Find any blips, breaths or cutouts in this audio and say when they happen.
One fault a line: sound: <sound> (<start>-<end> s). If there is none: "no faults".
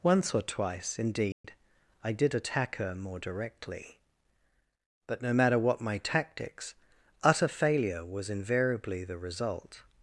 sound: dropout (1.3-1.4 s)